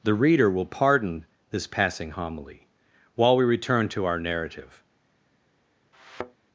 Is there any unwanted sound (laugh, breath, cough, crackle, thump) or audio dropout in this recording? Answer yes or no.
yes